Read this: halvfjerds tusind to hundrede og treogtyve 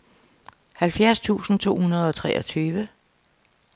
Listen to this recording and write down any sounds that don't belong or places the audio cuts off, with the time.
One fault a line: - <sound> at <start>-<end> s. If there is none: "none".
none